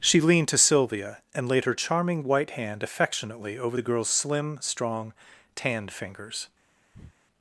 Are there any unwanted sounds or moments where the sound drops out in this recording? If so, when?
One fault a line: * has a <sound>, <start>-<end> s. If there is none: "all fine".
* has a breath, 6.9-7.1 s